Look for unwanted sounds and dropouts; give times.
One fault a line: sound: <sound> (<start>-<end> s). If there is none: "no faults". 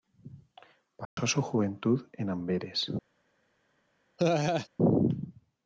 sound: dropout (1.1-1.2 s)
sound: laugh (4.2-4.7 s)